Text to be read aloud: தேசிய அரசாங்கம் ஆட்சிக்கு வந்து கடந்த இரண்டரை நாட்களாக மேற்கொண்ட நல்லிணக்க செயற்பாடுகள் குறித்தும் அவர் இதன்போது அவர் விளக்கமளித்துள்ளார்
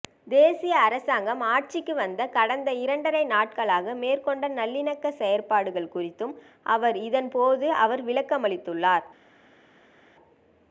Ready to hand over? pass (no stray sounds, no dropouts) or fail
pass